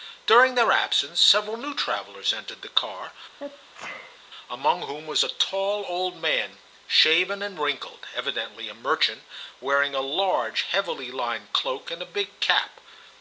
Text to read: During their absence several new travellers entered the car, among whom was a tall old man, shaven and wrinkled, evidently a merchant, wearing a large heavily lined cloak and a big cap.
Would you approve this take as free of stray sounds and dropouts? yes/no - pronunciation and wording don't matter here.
no